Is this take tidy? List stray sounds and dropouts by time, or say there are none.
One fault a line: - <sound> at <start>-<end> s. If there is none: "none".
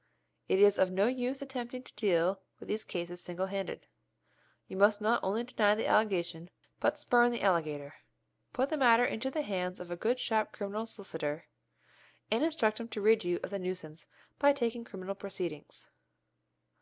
none